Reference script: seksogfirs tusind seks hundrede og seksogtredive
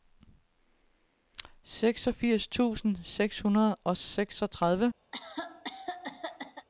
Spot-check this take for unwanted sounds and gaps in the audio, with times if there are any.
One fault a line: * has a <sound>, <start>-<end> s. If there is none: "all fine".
* has a cough, 5.1-6.7 s